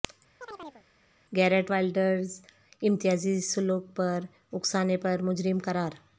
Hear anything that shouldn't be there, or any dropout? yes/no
yes